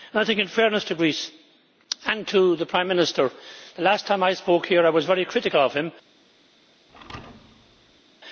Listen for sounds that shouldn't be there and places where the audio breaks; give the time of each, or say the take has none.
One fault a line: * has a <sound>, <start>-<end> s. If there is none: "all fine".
* has a thud, 6.9-8.0 s